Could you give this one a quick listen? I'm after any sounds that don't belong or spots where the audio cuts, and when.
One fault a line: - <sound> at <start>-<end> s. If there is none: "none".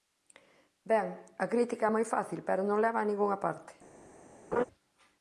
- laugh at 4.5-4.6 s